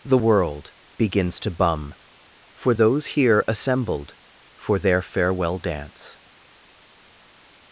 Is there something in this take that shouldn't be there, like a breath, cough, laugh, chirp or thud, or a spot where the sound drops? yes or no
no